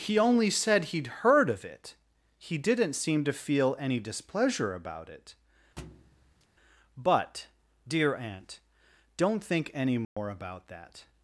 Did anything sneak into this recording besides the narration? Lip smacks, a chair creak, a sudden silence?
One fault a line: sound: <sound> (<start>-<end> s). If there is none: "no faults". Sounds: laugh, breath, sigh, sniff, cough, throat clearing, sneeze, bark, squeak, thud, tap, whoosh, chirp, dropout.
sound: thud (5.8-6.5 s)
sound: dropout (10.0-10.2 s)